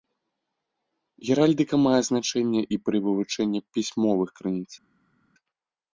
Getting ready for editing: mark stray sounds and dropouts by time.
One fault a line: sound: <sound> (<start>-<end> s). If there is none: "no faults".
no faults